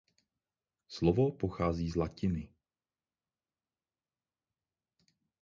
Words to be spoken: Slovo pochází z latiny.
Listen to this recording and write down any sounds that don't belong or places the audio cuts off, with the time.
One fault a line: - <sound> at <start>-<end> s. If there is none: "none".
none